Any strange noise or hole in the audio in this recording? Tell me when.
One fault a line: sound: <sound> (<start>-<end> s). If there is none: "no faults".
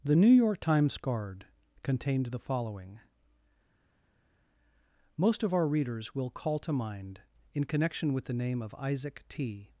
no faults